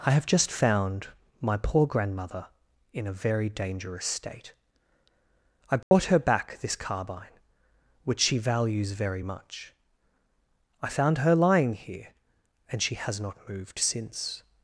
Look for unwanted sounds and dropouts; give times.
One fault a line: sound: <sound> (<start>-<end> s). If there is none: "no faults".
sound: dropout (5.8-5.9 s)